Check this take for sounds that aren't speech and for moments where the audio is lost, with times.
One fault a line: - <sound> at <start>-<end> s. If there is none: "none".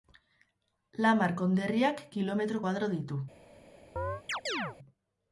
- chirp at 4.0-4.8 s